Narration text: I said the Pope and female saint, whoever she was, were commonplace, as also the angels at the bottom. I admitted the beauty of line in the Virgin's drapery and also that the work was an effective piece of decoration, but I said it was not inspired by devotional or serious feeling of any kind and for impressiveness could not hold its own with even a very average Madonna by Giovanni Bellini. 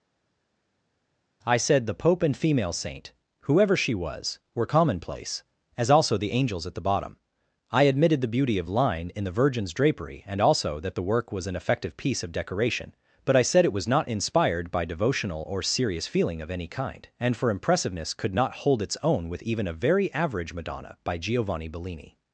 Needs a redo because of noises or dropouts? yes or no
no